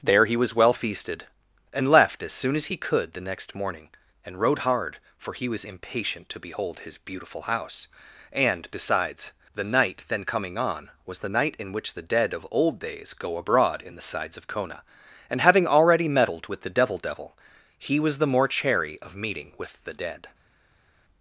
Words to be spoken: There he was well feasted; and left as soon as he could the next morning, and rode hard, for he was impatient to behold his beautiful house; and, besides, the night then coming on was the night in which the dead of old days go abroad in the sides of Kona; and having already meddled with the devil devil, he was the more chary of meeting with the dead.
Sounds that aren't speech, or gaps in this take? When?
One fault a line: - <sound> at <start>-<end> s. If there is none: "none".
none